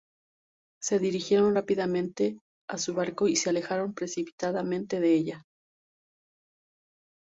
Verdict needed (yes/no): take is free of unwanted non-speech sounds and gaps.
yes